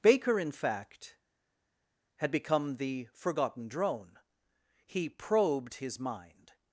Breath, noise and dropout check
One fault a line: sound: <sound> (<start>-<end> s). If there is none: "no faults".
no faults